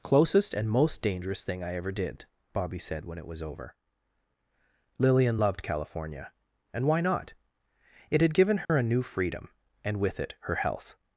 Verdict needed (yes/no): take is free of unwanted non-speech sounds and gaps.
no